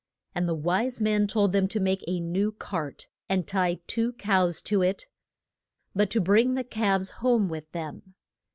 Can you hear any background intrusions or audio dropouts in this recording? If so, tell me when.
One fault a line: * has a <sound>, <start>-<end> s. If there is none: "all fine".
all fine